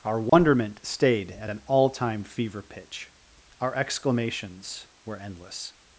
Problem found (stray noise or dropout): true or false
true